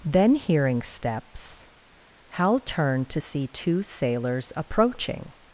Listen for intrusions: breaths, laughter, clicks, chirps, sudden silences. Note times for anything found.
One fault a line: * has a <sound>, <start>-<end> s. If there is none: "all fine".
all fine